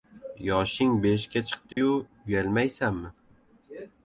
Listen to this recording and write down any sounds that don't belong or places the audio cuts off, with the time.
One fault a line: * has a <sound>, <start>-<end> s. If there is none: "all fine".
* has a dropout, 1.7-1.8 s